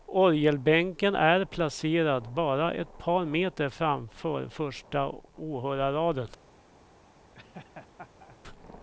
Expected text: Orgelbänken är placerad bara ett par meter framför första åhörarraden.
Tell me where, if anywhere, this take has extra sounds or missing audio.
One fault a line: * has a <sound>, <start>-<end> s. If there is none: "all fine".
* has a laugh, 7.3-8.4 s